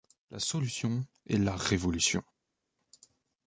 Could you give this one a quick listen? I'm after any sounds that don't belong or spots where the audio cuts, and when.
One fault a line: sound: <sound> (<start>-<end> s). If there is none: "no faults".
no faults